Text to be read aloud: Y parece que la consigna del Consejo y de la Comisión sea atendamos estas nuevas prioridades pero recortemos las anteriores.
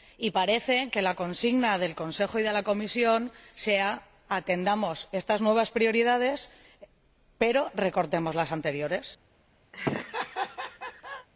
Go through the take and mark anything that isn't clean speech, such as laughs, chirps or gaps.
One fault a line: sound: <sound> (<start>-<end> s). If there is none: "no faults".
sound: laugh (9.7-11.3 s)